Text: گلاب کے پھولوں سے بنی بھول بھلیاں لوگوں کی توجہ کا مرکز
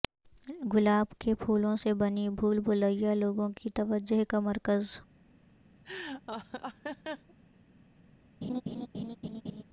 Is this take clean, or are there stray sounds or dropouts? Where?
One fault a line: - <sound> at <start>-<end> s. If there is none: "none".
- laugh at 5.8-7.3 s
- laugh at 8.4-9.6 s